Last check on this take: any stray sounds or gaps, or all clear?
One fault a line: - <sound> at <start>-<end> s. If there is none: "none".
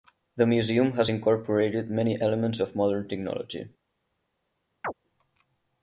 - chirp at 4.8-4.9 s